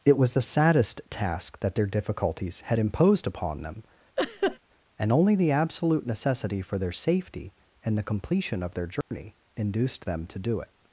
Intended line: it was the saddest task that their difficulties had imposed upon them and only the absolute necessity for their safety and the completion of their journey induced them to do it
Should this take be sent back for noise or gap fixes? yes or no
yes